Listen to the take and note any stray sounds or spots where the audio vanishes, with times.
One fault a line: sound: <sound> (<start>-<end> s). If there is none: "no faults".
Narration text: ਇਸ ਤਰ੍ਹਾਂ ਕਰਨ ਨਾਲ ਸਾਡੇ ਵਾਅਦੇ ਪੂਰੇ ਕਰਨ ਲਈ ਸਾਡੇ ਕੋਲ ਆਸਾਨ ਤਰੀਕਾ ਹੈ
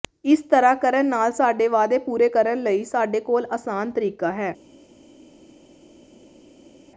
no faults